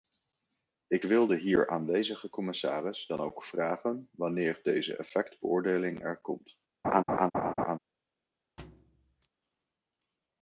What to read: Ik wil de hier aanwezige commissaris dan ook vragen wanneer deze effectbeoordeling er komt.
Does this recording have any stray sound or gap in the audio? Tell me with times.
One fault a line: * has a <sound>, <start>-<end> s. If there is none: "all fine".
* has a laugh, 6.8-7.8 s
* has a thud, 8.6-9.3 s